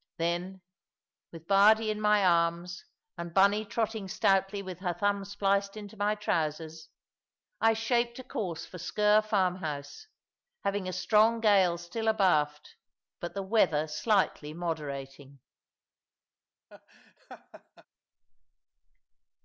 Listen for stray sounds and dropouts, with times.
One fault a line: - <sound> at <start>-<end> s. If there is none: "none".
- laugh at 16.7-17.9 s